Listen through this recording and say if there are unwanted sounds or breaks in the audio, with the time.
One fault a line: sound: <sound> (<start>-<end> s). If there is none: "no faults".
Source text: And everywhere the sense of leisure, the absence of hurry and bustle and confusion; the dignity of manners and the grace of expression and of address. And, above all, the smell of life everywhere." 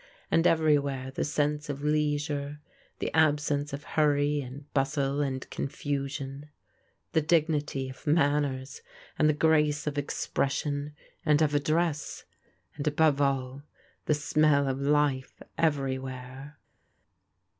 no faults